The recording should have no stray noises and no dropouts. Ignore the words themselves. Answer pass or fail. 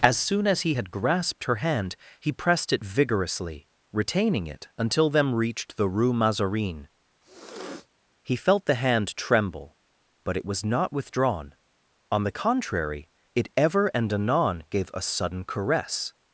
fail